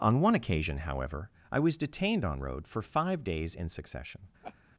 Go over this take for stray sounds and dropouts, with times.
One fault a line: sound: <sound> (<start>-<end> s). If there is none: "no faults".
sound: laugh (4.4-4.6 s)